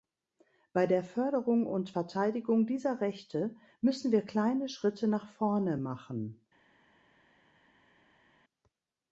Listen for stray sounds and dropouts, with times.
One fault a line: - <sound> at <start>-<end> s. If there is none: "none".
none